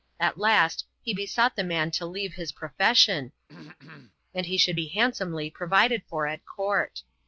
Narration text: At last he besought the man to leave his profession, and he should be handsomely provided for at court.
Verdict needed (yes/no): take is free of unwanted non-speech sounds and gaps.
no